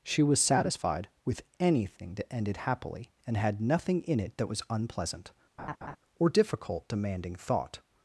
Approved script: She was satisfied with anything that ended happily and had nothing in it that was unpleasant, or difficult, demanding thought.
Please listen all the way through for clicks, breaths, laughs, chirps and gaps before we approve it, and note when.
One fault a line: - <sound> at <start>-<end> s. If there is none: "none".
- laugh at 5.6-6.0 s